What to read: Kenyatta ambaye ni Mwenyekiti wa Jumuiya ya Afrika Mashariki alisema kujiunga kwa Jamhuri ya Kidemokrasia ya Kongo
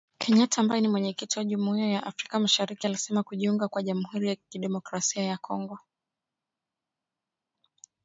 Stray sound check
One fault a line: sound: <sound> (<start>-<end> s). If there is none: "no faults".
no faults